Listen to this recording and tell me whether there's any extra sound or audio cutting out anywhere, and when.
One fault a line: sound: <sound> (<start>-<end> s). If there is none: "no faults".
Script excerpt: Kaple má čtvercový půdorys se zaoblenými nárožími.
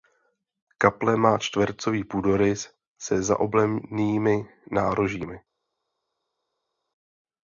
no faults